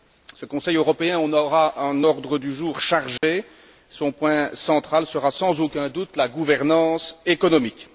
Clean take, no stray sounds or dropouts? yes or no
no